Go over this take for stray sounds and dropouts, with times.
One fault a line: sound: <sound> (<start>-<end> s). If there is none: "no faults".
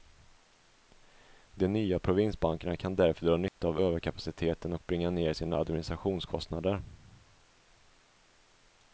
sound: dropout (3.5-3.6 s)